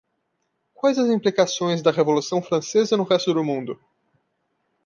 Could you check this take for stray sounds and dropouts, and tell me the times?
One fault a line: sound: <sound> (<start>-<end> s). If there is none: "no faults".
no faults